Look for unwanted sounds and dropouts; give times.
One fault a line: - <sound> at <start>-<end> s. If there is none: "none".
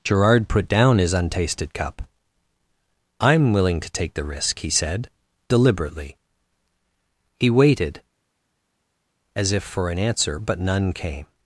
none